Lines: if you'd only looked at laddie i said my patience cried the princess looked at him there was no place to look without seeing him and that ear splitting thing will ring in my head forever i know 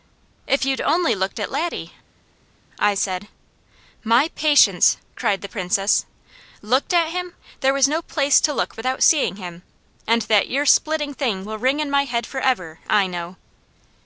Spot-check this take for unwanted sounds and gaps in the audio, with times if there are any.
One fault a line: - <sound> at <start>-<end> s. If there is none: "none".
none